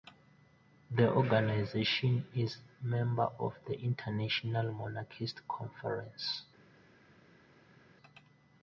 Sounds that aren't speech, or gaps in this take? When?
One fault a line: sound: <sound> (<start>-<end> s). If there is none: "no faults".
no faults